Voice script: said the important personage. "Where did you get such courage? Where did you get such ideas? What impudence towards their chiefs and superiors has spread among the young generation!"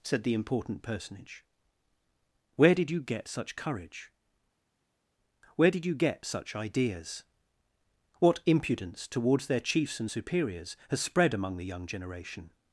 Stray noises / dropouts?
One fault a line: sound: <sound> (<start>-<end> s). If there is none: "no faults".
no faults